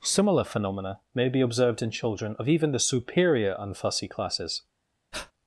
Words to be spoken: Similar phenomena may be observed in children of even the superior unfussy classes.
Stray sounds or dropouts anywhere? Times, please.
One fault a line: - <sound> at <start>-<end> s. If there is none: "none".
- breath at 5.1-5.3 s